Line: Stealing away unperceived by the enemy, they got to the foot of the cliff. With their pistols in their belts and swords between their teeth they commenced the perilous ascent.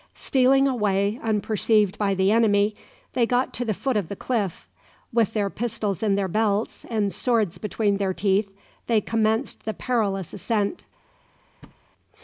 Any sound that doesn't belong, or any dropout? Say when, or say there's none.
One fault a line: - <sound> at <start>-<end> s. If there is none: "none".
- thud at 11.6-11.8 s